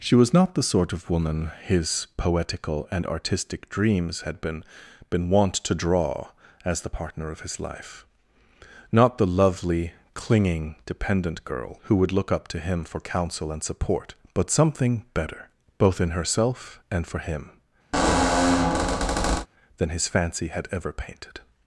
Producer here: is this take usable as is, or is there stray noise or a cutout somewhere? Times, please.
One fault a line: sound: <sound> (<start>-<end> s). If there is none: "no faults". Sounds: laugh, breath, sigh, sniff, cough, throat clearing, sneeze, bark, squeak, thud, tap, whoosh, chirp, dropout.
sound: squeak (17.9-19.5 s)